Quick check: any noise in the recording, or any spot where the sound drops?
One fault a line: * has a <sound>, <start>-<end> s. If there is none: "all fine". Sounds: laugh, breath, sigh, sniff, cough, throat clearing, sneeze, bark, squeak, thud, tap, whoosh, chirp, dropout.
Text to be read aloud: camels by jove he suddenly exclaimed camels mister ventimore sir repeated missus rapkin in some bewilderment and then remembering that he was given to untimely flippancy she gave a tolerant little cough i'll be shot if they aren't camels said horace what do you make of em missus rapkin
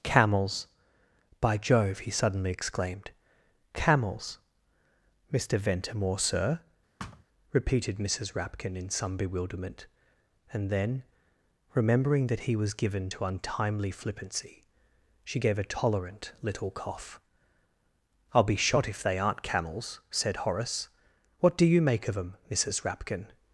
* has a thud, 7.0-7.2 s